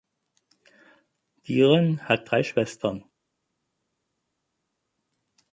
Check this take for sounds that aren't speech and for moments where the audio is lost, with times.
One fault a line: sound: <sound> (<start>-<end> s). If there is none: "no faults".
no faults